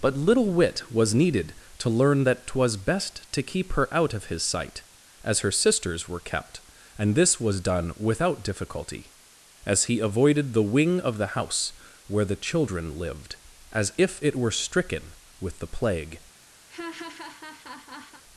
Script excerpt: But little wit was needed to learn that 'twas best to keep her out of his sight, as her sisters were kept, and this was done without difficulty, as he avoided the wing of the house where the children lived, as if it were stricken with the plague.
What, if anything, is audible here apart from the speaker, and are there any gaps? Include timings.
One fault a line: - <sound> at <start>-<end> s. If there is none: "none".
- laugh at 16.7-18.2 s